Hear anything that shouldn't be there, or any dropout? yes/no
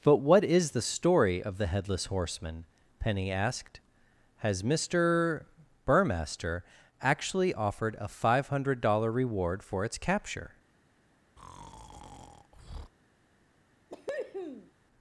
yes